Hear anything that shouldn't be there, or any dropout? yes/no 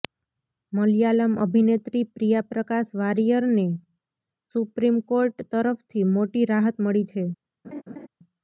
yes